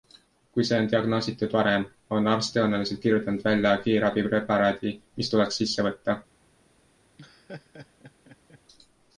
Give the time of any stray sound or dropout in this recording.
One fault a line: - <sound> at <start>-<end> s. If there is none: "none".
- laugh at 7.2-8.6 s